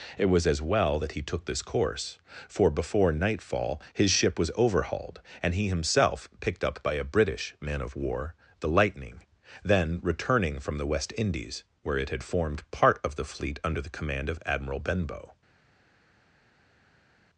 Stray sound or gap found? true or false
false